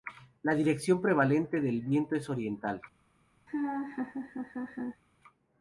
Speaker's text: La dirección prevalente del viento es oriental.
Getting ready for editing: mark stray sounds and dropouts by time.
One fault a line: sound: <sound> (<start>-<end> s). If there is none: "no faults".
sound: laugh (3.5-5.0 s)